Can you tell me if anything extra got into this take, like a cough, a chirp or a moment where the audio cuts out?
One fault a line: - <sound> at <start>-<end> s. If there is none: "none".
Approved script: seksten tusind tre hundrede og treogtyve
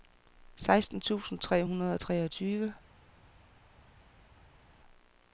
none